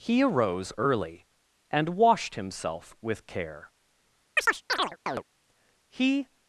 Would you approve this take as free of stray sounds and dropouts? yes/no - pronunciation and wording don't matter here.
no